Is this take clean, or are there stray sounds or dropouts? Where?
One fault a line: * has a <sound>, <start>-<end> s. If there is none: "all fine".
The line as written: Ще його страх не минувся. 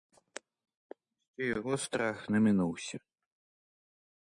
all fine